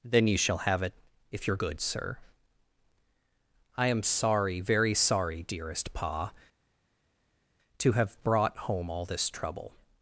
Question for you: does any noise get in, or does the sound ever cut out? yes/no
no